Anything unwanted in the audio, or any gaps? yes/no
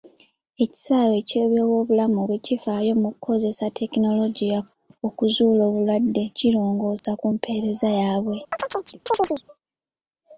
yes